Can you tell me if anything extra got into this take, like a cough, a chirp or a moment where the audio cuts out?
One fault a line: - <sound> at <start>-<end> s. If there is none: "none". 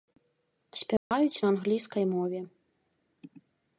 - dropout at 1.0-1.1 s